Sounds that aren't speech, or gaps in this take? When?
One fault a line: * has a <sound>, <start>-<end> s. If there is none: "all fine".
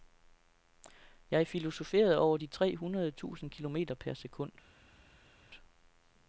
all fine